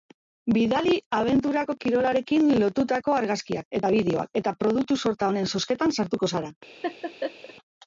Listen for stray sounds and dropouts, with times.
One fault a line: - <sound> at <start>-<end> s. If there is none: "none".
- laugh at 6.8-7.5 s